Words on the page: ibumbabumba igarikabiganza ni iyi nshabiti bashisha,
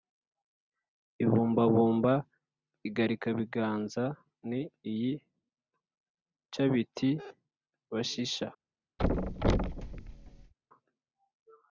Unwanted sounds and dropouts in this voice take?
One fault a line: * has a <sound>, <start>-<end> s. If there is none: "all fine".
* has a thud, 9.0-10.5 s